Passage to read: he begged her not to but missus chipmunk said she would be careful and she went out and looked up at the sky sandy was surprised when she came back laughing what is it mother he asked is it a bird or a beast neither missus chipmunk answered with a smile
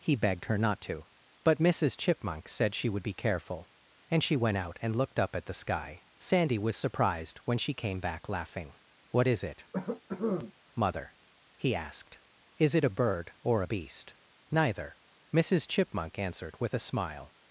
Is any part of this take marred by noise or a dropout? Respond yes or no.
yes